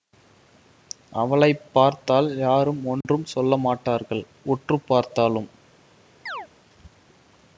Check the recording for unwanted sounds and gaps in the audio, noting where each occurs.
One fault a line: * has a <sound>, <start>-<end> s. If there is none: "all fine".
* has a dropout, 3.0-3.0 s
* has a chirp, 6.3-6.5 s